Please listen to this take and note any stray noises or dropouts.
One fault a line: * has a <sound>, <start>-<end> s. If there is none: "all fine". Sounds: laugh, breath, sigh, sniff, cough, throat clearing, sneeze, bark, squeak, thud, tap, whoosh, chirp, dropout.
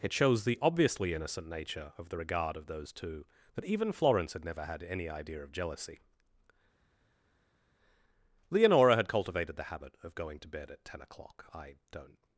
all fine